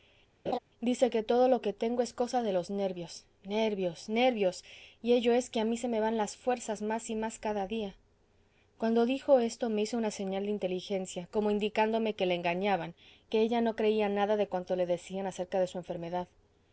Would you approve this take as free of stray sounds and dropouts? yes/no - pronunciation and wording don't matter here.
no